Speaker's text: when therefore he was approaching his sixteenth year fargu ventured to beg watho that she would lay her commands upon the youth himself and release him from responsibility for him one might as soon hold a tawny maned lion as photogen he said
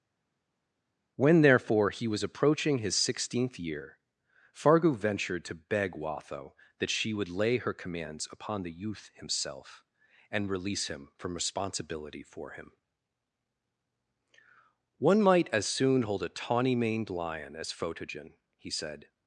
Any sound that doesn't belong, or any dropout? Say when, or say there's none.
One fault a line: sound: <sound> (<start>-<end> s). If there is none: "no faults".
no faults